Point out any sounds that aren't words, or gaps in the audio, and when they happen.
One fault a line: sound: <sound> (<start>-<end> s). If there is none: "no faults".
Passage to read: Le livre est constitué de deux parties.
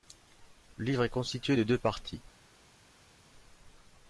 no faults